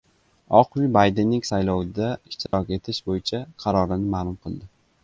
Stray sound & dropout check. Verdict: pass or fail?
fail